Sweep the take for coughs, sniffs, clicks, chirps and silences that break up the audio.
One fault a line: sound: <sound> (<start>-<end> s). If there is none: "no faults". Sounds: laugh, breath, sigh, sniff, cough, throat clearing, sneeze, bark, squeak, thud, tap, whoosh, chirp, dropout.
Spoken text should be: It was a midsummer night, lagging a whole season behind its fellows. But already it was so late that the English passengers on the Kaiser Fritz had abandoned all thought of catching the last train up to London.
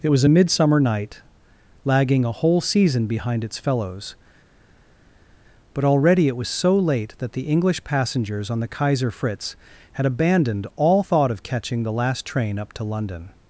no faults